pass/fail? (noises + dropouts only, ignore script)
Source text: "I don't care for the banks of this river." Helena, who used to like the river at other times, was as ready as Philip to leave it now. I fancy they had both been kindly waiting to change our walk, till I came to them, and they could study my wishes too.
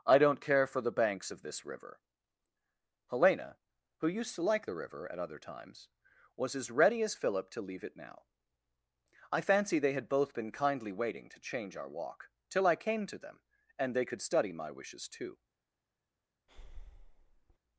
fail